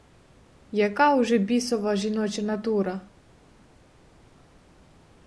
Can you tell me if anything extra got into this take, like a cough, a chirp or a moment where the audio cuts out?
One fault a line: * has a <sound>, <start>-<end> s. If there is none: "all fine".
all fine